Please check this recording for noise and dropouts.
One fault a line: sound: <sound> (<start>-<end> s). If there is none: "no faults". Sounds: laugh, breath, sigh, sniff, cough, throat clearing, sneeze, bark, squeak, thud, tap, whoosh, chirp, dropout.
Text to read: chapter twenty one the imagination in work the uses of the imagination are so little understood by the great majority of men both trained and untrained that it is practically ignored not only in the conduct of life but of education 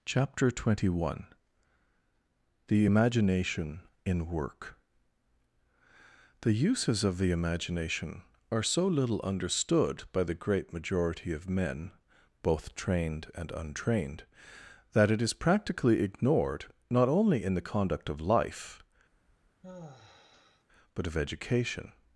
sound: sigh (19.1-20.7 s)